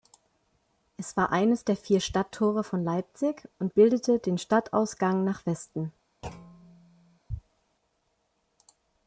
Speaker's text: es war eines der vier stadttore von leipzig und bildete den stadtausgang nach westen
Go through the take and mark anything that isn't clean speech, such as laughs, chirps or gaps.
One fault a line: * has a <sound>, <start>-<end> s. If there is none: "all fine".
* has a thud, 6.2-7.2 s